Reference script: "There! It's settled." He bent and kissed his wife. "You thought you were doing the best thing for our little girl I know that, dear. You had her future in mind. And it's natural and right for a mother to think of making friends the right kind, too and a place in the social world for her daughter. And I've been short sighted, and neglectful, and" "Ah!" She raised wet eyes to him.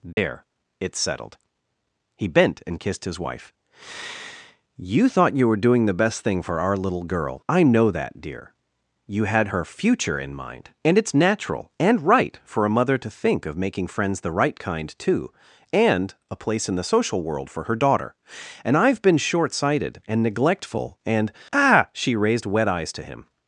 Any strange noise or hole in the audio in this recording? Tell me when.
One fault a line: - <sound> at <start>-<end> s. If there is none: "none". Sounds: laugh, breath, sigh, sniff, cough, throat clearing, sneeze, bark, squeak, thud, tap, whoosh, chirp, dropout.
- dropout at 0.1-0.2 s